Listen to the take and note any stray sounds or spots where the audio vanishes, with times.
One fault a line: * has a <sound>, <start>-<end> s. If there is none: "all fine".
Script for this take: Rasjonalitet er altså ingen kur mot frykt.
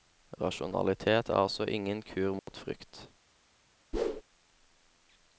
* has a dropout, 2.4-2.5 s
* has a whoosh, 3.9-4.2 s